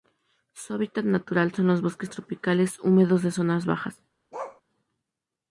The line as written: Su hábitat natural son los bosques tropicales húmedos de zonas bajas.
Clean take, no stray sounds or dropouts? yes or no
no